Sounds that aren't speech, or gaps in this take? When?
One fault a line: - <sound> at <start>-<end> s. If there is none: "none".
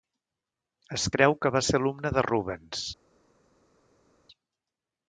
none